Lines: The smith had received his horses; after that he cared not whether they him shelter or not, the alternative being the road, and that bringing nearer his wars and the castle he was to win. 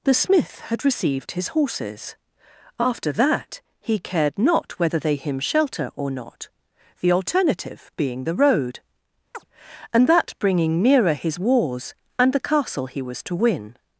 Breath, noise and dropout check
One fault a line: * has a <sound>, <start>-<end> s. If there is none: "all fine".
* has a chirp, 9.3-9.4 s